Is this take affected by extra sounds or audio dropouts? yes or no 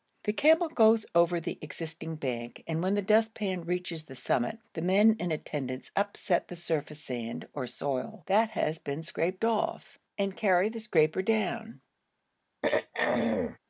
yes